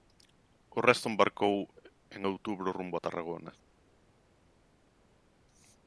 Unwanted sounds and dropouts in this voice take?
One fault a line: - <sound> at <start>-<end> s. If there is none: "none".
none